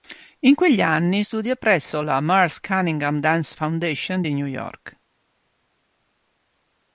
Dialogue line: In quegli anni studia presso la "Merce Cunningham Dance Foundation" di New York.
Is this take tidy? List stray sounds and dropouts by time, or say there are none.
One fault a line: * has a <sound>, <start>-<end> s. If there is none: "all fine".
all fine